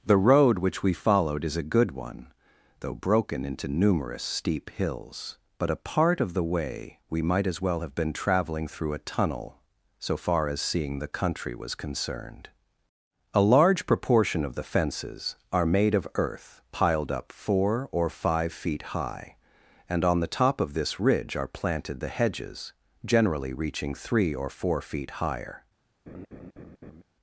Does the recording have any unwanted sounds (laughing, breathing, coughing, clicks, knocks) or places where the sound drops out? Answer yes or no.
yes